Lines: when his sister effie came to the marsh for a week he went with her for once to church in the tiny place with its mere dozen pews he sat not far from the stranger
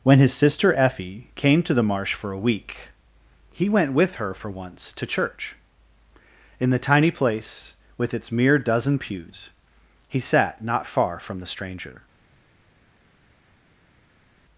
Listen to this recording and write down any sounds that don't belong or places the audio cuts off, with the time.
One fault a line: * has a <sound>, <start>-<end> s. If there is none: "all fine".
all fine